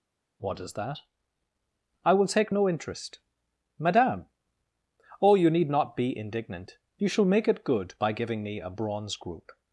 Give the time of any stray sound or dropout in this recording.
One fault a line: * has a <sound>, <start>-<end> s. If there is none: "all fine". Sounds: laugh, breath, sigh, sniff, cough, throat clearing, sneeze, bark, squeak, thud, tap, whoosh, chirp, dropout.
all fine